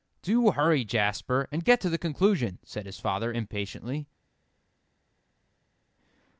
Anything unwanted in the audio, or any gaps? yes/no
no